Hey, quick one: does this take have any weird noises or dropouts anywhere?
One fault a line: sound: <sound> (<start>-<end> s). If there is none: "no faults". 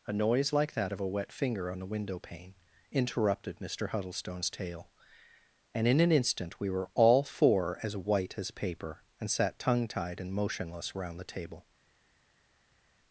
no faults